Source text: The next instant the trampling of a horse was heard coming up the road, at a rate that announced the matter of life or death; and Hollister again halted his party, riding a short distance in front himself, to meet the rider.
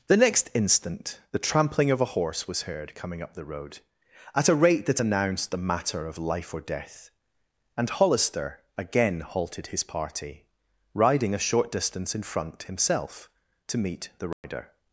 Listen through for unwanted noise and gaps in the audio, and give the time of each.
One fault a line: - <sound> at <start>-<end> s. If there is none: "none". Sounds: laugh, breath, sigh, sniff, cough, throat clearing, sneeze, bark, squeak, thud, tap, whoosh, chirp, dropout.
- dropout at 14.3-14.4 s